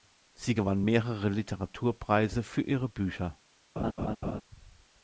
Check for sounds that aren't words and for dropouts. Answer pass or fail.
fail